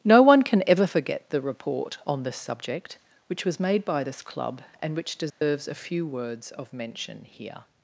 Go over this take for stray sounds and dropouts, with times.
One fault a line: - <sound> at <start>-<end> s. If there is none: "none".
- dropout at 5.3-5.4 s